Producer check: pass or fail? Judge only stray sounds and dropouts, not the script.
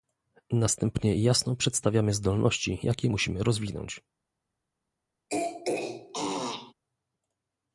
fail